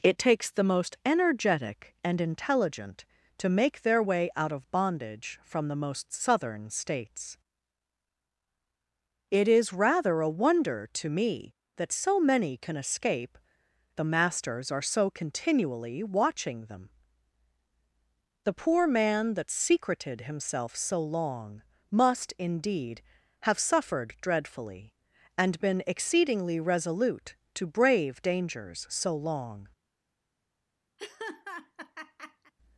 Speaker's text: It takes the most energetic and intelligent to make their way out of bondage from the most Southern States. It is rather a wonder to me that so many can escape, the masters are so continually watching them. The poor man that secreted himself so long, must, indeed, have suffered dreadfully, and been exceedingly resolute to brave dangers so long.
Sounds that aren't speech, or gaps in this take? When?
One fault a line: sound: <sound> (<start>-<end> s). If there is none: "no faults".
sound: laugh (31.0-32.5 s)